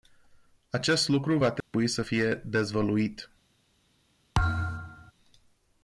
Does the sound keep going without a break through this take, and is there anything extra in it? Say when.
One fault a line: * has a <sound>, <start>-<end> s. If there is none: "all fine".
* has a dropout, 1.6-1.7 s
* has a thud, 4.3-5.1 s